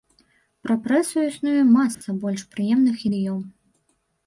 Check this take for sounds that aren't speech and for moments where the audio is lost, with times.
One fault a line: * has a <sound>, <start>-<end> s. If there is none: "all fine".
* has a dropout, 1.9-2.0 s